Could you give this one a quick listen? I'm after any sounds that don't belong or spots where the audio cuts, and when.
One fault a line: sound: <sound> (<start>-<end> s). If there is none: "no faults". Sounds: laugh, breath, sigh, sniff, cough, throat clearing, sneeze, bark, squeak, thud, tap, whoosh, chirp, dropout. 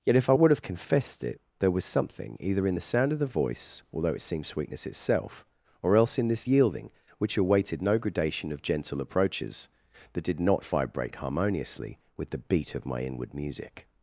no faults